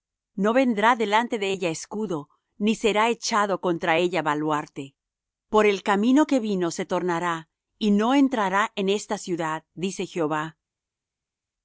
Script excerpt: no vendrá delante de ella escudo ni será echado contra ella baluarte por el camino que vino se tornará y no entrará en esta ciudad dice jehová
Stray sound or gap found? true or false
false